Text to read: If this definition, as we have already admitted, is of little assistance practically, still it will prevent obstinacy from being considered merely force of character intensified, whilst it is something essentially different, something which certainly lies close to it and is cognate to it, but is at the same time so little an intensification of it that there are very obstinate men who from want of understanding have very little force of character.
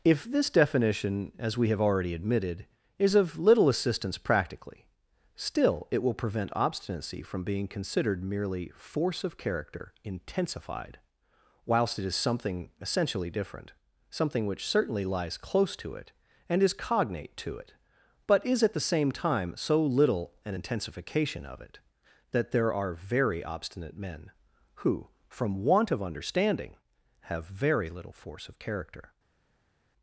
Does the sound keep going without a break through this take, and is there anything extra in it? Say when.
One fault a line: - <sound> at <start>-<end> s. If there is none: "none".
none